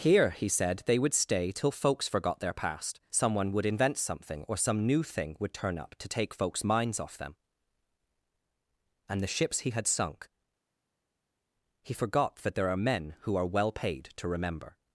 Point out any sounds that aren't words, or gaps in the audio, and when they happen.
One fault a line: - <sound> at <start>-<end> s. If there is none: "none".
none